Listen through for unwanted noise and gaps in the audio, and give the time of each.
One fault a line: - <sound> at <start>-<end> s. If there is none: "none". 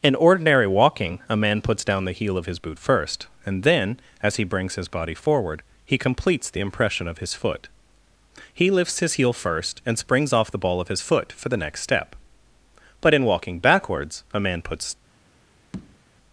- tap at 15.7-16.0 s